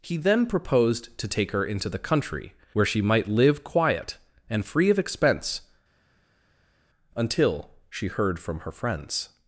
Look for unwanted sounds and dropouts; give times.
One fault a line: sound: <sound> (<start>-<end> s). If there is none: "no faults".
no faults